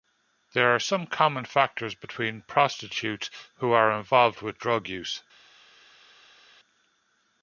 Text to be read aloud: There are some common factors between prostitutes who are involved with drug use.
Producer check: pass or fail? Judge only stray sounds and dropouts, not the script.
pass